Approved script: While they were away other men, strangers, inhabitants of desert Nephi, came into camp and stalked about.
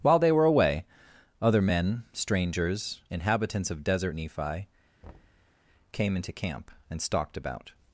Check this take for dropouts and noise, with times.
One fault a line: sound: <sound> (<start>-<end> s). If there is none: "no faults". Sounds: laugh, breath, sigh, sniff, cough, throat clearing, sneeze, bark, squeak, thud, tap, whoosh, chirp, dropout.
sound: thud (5.0-5.5 s)